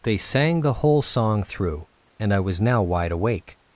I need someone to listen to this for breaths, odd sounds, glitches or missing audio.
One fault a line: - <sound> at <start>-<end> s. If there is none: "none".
none